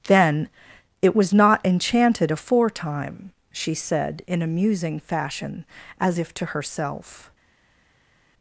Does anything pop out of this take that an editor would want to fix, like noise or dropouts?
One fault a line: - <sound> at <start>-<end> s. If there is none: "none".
none